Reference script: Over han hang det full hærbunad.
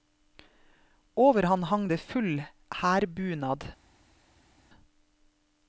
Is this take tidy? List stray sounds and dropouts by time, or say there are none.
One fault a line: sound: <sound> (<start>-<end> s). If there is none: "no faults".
no faults